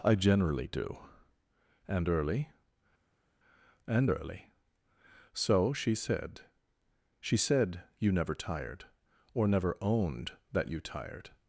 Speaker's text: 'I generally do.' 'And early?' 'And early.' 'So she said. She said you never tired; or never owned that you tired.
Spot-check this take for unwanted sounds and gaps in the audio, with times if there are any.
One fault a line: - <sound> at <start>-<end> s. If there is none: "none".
none